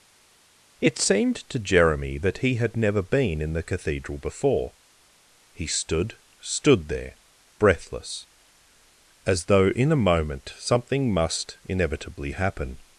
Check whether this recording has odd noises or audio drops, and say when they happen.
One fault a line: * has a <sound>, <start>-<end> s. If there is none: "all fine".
all fine